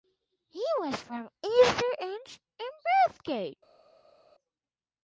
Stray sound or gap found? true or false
false